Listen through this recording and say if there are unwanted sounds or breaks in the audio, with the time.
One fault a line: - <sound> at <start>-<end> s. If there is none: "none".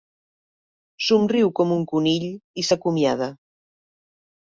none